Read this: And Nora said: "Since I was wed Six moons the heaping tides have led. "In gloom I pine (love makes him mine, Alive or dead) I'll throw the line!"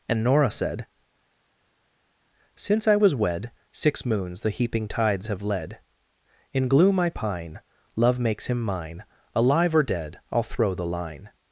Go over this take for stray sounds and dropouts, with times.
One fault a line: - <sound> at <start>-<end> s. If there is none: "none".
none